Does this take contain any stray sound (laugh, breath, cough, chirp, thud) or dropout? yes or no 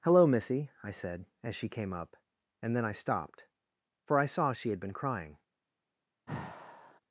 yes